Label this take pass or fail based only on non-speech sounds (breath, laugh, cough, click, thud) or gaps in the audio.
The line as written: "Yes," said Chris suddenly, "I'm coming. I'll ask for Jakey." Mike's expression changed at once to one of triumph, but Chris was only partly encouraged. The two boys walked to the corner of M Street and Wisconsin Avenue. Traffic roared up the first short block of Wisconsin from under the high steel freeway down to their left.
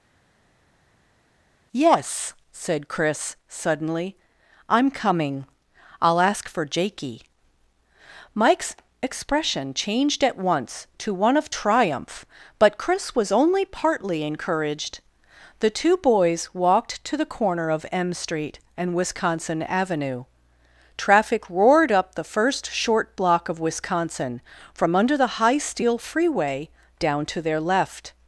pass